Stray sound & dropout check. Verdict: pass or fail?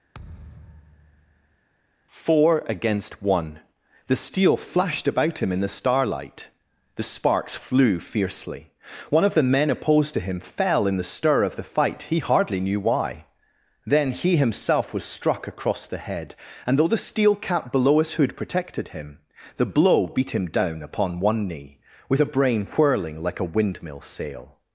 fail